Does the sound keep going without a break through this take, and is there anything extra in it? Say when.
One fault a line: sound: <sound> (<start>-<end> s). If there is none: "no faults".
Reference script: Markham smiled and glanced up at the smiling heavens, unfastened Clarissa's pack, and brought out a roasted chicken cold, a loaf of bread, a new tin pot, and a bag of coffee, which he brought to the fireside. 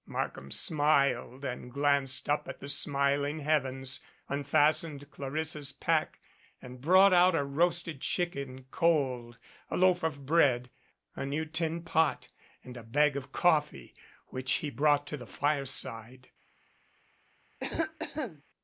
sound: cough (17.6-18.4 s)